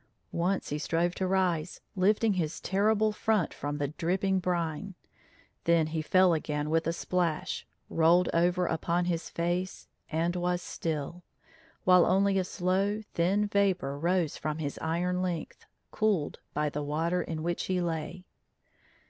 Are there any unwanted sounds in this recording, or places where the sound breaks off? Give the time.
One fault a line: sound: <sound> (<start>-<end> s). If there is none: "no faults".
no faults